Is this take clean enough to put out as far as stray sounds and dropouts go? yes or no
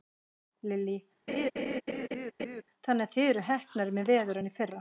no